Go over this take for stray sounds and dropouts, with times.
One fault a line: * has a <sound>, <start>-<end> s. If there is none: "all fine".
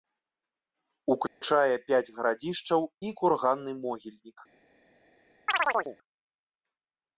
* has a dropout, 1.3-1.4 s
* has a chirp, 5.5-6.0 s